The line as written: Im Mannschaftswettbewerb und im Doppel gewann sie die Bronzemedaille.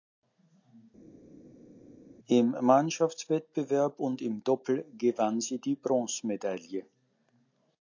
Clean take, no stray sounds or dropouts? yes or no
yes